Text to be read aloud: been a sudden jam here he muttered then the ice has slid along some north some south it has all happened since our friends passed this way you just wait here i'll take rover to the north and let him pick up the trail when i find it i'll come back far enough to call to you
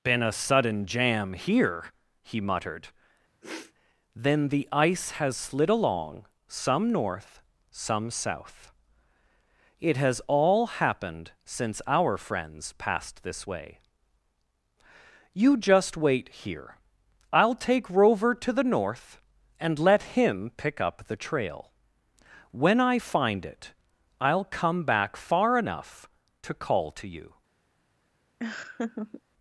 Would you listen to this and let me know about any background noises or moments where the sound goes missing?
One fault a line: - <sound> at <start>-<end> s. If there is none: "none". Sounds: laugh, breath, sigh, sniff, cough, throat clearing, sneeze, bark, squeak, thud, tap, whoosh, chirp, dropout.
- sniff at 3.4-3.7 s
- laugh at 28.4-29.2 s